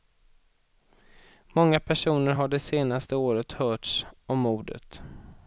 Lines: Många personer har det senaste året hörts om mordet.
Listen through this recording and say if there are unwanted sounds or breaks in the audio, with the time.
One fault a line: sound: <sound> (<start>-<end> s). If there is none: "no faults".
no faults